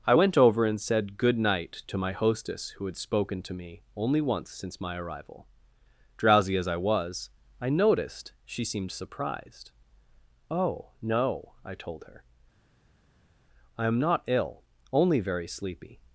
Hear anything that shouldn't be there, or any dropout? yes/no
no